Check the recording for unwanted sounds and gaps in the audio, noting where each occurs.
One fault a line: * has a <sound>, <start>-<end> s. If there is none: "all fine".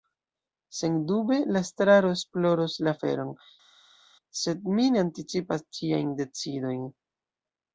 all fine